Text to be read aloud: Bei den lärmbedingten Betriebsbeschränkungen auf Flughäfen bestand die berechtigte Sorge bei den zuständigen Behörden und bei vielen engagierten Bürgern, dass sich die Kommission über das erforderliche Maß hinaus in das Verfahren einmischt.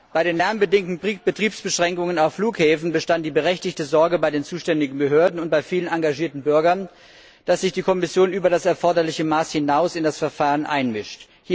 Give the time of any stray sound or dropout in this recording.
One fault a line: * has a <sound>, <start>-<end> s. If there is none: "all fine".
all fine